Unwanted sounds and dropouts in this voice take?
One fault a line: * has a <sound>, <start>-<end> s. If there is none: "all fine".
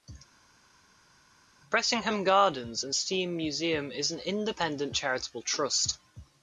all fine